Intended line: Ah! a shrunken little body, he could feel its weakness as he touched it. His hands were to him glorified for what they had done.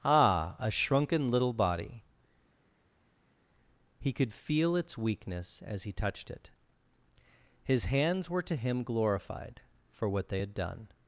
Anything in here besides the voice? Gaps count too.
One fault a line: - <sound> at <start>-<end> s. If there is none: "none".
none